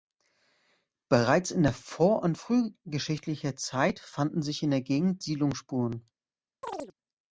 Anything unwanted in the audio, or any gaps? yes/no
yes